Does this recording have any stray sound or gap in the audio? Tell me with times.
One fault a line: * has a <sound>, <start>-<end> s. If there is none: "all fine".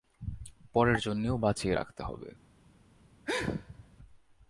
* has a sneeze, 3.2-4.0 s